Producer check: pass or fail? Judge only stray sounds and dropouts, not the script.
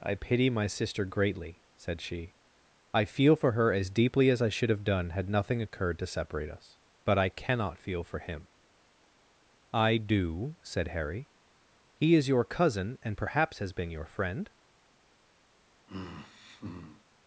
fail